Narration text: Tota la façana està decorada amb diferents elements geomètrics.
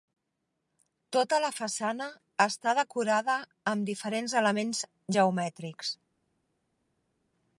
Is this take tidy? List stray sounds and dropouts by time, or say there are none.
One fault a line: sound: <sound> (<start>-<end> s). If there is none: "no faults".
no faults